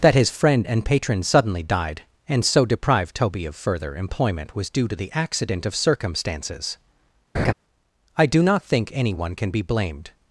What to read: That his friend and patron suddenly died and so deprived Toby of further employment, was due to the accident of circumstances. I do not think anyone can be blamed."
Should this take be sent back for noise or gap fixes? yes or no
yes